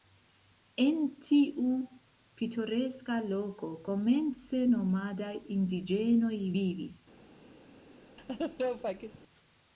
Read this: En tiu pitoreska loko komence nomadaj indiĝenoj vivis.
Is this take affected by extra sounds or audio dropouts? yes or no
yes